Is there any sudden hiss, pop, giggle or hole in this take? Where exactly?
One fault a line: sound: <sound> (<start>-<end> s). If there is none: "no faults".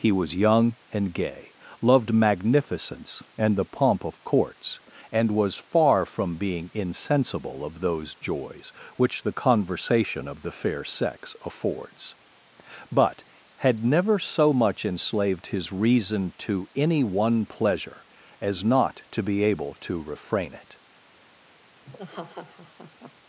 sound: laugh (21.8-23.1 s)